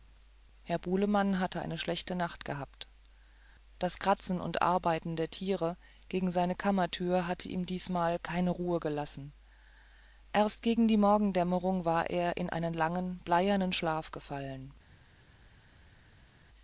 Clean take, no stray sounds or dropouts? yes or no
yes